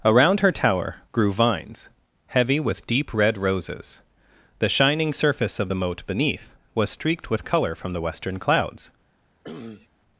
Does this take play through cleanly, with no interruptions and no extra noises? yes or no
no